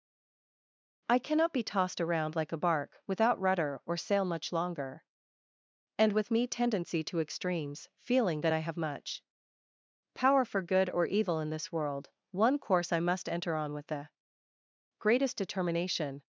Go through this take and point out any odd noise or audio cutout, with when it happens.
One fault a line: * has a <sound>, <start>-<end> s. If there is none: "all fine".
all fine